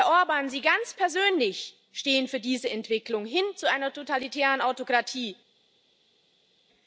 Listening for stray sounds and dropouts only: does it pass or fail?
pass